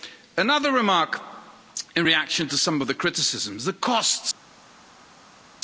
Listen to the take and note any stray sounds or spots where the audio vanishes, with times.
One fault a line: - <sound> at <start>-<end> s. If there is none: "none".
none